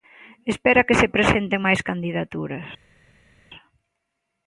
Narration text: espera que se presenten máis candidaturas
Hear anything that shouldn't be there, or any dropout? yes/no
no